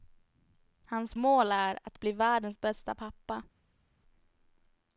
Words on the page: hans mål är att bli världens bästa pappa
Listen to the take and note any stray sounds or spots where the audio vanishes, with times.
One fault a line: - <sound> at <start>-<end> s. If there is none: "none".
none